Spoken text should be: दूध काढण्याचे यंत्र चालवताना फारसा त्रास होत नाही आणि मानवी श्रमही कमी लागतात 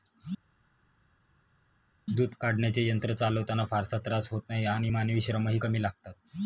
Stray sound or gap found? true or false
false